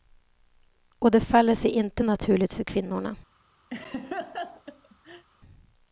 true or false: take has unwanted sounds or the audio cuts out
true